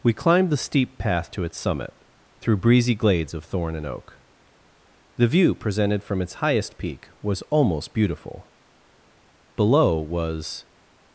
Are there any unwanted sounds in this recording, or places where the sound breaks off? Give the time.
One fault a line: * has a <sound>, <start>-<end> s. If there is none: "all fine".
all fine